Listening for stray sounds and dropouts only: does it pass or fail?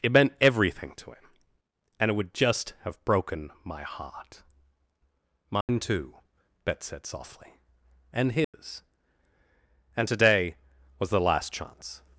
fail